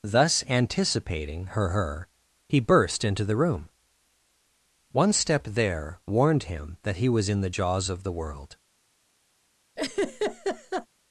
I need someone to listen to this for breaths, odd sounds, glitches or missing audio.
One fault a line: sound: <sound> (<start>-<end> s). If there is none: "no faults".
sound: laugh (9.8-10.9 s)